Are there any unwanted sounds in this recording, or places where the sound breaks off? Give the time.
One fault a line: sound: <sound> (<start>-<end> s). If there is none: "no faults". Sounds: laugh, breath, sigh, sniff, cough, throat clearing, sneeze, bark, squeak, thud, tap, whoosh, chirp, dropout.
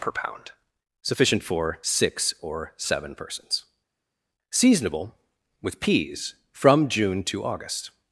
no faults